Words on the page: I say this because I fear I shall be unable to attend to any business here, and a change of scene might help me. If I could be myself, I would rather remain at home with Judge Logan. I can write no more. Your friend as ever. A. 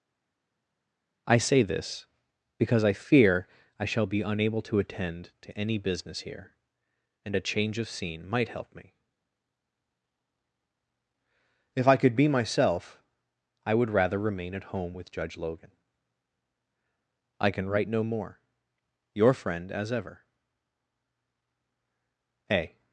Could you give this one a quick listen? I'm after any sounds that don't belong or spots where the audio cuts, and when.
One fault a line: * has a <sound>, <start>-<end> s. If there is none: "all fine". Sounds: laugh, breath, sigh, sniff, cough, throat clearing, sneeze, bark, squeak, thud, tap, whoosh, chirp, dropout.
all fine